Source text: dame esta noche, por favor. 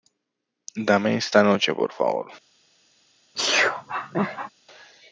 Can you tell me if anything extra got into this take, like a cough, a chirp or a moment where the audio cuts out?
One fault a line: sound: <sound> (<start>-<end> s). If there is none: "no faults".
sound: sneeze (3.3-4.5 s)